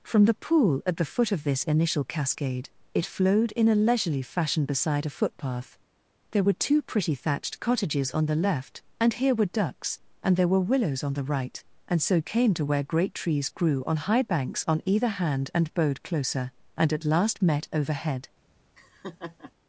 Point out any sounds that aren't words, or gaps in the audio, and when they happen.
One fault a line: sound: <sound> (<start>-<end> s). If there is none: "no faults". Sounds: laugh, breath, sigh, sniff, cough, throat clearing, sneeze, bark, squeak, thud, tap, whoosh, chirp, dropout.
sound: laugh (18.7-19.5 s)